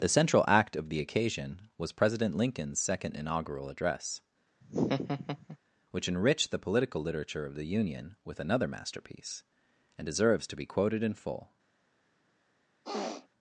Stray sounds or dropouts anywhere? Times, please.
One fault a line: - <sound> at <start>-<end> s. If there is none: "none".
- laugh at 4.6-5.6 s
- sniff at 12.8-13.3 s